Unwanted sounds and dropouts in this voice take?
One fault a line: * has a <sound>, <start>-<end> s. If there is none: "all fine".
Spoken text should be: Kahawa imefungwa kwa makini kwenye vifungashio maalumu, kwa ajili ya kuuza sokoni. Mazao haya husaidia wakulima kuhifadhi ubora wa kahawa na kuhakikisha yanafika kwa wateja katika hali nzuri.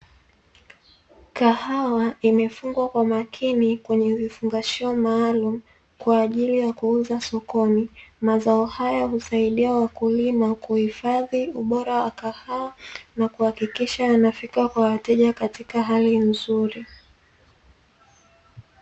all fine